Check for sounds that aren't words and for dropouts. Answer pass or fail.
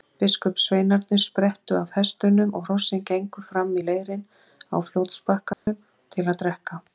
fail